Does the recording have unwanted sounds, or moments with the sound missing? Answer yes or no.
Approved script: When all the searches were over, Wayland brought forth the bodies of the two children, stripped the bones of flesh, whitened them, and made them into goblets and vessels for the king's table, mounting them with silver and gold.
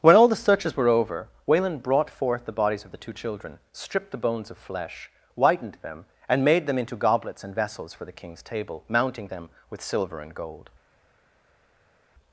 no